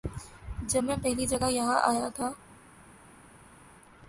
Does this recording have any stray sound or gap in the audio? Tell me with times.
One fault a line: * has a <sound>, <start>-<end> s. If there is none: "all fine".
all fine